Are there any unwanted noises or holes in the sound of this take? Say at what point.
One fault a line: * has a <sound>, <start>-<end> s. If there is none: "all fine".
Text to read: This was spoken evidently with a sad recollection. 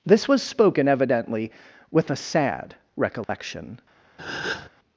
* has a dropout, 3.2-3.3 s
* has a breath, 4.2-4.7 s